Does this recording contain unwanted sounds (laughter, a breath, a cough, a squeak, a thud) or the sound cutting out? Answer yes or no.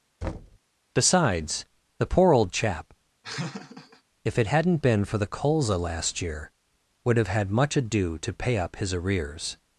yes